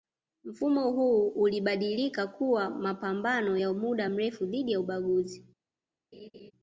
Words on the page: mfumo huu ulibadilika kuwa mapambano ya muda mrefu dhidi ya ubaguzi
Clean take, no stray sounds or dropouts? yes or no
no